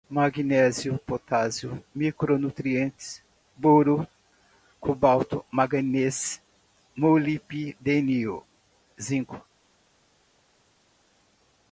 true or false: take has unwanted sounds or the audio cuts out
false